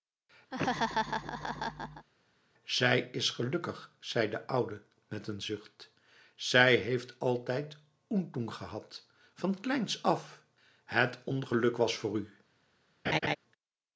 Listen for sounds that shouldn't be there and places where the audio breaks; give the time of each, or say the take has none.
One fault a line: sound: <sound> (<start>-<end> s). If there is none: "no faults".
sound: laugh (0.5-2.1 s)
sound: laugh (13.1-13.4 s)